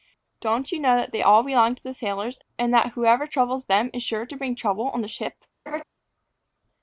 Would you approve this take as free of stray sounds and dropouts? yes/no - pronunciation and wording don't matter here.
no